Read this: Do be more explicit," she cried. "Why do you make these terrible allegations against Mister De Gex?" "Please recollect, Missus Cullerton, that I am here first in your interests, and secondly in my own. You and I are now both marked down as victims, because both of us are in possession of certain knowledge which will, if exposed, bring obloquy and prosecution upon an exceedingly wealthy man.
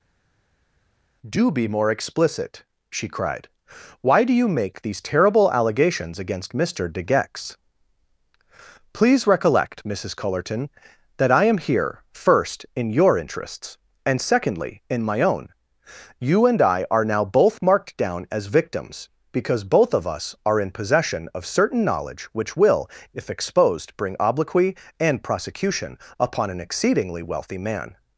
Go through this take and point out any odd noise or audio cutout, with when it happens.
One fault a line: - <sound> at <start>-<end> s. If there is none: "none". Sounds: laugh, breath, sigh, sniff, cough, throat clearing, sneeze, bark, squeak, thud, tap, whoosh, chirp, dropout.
none